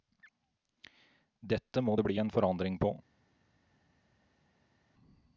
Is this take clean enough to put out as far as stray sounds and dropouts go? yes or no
yes